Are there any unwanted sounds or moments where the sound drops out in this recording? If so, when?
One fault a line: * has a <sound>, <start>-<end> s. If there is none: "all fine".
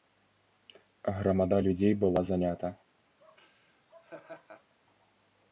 * has a laugh, 3.2-4.7 s